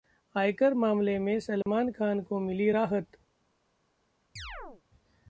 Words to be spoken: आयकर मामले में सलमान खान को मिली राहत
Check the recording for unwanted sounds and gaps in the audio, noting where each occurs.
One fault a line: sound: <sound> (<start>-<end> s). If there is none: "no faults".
sound: dropout (1.6-1.7 s)
sound: chirp (4.4-4.8 s)